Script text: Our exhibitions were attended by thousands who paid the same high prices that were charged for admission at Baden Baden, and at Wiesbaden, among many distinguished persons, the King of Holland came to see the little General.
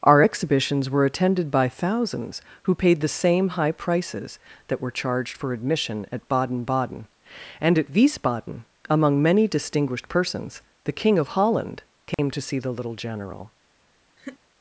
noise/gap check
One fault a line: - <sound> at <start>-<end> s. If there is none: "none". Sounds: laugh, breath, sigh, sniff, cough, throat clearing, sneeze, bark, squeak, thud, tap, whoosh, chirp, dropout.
- dropout at 12.1-12.2 s
- laugh at 14.2-14.4 s